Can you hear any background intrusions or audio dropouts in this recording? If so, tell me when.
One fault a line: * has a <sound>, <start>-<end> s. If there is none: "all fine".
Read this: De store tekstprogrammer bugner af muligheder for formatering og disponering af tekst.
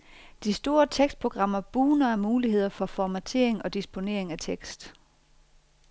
all fine